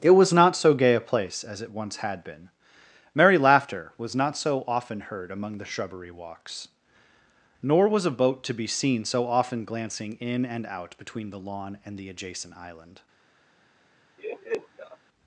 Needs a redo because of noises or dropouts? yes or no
yes